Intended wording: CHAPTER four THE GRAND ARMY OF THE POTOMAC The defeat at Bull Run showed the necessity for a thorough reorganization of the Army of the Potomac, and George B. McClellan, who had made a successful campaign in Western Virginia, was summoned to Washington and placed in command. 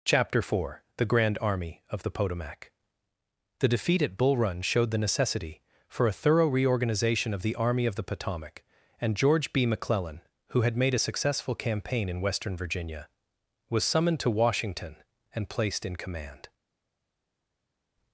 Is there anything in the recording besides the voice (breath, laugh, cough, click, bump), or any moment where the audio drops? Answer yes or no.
no